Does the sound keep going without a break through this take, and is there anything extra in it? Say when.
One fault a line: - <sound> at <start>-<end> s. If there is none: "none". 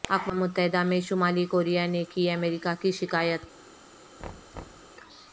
- thud at 4.2-4.9 s